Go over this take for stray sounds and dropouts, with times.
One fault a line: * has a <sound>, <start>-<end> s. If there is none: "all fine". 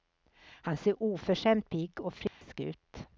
* has a dropout, 2.3-2.4 s